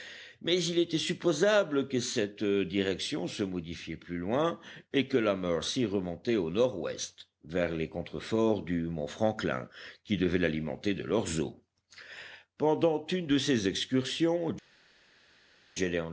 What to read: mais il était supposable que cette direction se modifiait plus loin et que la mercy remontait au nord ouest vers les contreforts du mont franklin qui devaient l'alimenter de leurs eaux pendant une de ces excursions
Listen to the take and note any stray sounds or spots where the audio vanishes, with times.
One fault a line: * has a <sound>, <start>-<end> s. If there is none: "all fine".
all fine